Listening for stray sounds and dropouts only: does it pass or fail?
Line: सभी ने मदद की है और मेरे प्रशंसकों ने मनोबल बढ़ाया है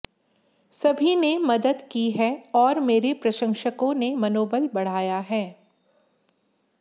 pass